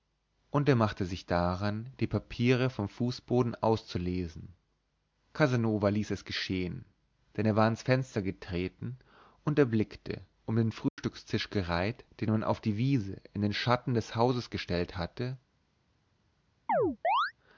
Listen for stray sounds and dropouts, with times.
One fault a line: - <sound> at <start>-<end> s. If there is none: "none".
- dropout at 10.9-11.0 s
- chirp at 16.7-17.3 s